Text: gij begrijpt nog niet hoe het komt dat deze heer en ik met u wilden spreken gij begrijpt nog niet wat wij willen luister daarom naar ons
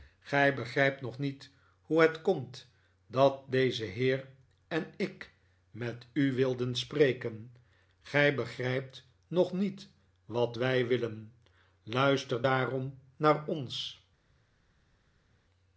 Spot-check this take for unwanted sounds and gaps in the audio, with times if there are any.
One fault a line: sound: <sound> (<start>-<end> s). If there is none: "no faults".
no faults